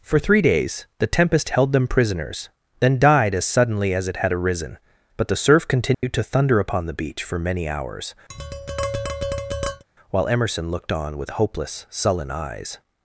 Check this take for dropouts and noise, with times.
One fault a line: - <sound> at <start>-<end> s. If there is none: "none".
- dropout at 5.9-6.0 s
- tap at 8.3-9.8 s